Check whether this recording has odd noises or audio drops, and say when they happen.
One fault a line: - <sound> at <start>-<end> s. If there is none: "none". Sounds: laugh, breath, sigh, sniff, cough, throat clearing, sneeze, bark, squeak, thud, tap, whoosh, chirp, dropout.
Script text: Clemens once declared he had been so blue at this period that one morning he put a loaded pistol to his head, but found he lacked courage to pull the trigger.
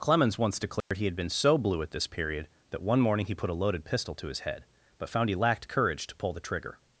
- dropout at 0.8-0.9 s